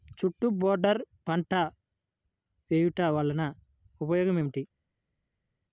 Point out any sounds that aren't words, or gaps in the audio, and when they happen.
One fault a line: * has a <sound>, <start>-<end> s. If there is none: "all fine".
all fine